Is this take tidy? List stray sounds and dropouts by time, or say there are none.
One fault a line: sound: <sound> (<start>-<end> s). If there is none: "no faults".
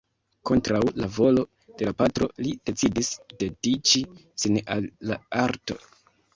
no faults